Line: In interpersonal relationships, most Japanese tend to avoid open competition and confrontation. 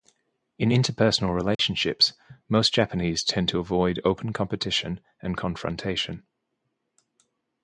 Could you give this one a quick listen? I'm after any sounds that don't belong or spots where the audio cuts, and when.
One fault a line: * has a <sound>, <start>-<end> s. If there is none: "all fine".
* has a dropout, 1.5-1.6 s